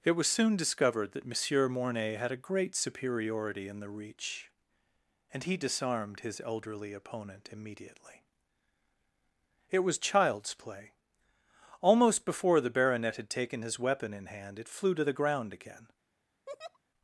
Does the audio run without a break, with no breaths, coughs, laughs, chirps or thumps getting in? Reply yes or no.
no